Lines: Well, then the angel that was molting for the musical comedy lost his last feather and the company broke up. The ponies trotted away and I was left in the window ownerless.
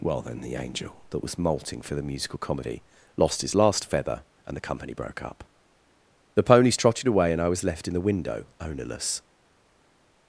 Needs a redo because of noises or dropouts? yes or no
no